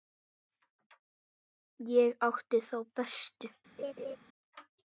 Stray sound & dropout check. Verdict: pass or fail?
fail